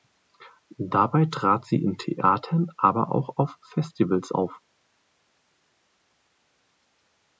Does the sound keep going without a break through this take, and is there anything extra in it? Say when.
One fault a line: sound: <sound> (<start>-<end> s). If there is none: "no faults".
no faults